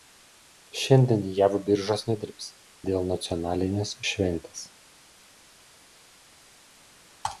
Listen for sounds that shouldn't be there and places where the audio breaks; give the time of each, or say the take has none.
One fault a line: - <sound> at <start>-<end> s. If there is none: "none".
none